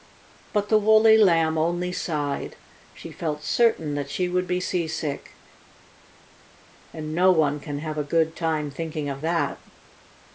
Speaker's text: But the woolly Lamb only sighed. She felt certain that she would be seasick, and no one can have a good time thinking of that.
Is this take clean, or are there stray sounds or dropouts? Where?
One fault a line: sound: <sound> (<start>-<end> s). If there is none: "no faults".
no faults